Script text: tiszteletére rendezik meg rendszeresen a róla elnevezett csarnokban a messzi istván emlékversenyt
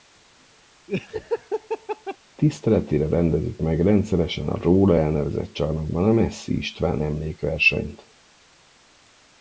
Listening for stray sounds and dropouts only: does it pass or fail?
fail